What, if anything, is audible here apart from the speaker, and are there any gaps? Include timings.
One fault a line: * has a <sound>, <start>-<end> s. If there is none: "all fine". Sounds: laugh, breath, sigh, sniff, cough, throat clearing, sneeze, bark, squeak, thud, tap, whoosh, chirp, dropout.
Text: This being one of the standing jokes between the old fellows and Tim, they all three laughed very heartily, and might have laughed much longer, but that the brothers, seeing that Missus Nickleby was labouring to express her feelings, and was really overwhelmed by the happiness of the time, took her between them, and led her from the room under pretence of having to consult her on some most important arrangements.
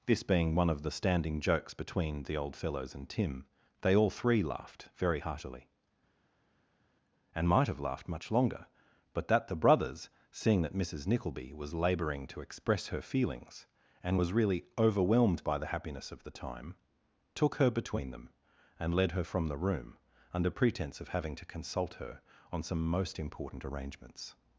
all fine